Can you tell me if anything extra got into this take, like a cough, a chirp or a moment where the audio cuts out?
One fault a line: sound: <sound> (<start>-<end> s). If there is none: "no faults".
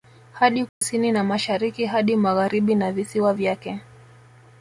sound: dropout (0.7-0.8 s)